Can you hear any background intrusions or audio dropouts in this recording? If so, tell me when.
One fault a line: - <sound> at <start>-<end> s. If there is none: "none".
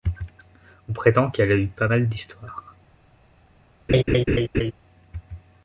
- laugh at 3.9-4.7 s